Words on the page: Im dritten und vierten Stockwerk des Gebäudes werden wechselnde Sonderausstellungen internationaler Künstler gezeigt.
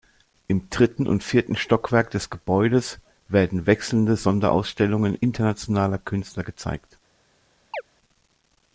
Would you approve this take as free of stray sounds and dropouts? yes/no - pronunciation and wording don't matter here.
no